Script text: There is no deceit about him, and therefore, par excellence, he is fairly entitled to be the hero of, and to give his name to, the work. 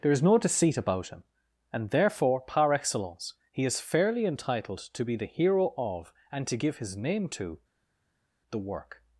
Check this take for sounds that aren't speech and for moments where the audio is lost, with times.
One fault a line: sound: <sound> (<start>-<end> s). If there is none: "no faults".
no faults